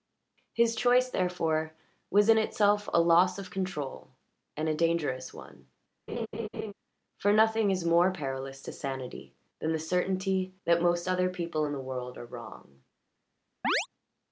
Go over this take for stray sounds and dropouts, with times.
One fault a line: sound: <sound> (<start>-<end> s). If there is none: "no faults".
sound: laugh (6.1-6.7 s)
sound: chirp (13.6-13.9 s)